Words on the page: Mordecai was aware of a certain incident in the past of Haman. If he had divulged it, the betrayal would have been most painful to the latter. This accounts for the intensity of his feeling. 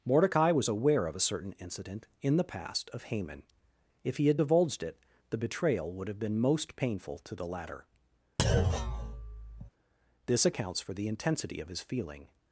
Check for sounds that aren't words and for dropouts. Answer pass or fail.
fail